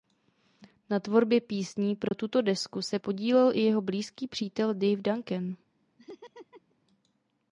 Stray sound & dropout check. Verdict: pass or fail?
fail